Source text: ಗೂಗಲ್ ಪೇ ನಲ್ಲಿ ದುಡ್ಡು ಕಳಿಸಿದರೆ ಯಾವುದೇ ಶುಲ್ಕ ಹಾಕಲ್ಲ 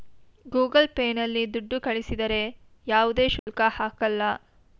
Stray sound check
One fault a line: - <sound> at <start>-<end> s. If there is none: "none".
- dropout at 3.4-3.5 s